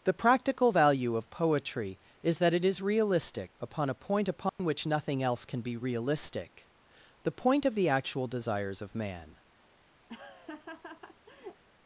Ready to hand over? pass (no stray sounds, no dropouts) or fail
fail